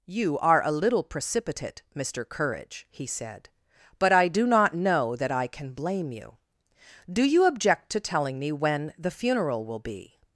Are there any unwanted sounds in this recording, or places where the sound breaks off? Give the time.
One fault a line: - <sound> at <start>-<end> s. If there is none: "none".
none